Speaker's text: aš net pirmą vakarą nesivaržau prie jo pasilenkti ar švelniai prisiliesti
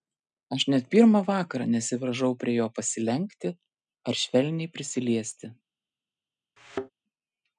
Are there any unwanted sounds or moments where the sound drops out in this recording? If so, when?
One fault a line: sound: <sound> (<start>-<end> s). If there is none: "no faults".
sound: thud (6.6-6.9 s)